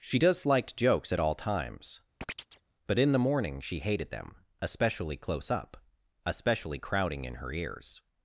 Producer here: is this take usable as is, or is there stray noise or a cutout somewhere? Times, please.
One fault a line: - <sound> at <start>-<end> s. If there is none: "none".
- chirp at 2.2-2.7 s